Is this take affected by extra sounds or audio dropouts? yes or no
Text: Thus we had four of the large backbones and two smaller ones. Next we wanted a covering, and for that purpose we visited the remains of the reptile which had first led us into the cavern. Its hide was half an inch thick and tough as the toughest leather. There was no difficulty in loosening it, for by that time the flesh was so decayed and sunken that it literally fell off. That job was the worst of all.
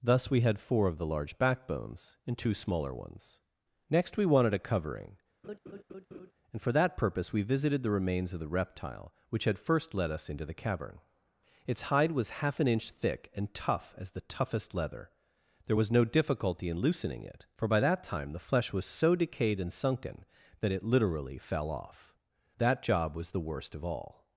yes